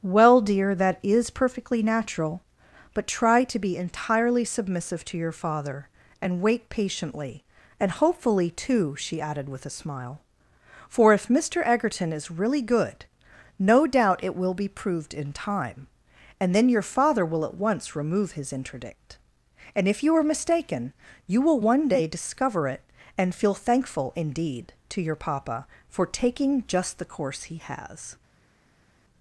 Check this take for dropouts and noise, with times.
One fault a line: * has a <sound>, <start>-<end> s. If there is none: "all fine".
all fine